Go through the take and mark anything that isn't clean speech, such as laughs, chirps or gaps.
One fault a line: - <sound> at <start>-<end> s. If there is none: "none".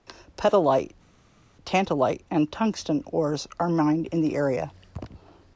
none